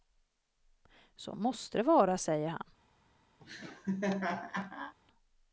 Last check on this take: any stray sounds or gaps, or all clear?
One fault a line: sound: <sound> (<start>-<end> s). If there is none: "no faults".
sound: laugh (3.4-4.9 s)